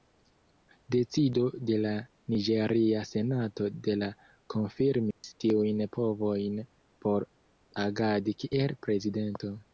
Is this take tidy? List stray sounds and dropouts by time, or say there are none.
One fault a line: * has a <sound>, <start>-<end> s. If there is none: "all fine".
* has a dropout, 5.1-5.2 s